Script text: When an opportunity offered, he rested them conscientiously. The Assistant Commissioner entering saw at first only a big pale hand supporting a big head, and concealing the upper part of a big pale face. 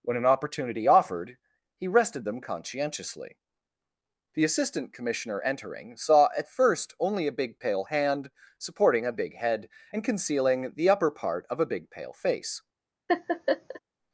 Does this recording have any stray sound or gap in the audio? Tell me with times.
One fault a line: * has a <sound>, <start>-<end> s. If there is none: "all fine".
* has a laugh, 13.1-13.8 s